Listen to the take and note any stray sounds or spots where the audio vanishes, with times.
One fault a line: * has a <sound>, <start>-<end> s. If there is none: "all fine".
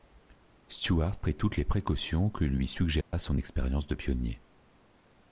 * has a dropout, 3.0-3.1 s